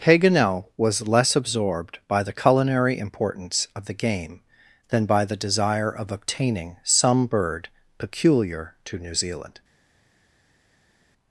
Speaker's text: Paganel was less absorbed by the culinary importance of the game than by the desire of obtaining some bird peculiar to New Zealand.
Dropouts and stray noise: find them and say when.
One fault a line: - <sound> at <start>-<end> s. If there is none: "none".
none